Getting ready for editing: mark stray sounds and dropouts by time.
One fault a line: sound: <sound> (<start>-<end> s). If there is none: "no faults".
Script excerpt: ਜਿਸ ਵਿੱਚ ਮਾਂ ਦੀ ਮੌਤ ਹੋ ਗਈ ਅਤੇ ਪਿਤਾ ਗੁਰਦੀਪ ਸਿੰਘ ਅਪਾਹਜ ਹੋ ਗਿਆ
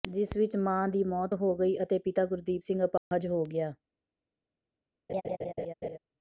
sound: dropout (3.0-3.1 s)
sound: laugh (5.1-6.0 s)